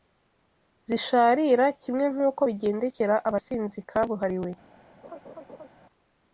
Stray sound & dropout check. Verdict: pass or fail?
fail